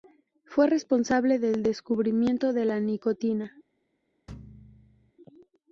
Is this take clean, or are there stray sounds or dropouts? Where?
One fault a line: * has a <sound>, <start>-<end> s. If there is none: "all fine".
* has a thud, 4.3-5.1 s